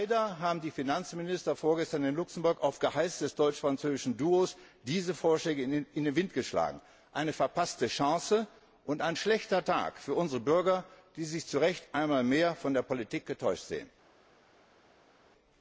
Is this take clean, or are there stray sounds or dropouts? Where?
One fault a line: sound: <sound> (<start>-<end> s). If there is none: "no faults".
no faults